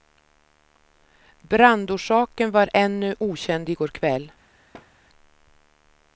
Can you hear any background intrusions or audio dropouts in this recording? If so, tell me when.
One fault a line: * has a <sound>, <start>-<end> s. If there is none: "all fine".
* has a thud, 4.7-4.9 s